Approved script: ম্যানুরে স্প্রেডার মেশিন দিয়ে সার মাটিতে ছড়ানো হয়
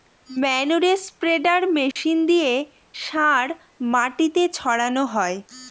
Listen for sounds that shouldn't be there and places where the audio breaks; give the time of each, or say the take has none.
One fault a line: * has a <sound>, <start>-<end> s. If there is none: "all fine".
* has a dropout, 1.9-2.0 s